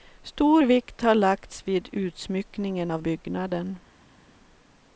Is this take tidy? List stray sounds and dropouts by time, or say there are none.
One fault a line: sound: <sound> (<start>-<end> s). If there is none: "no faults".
no faults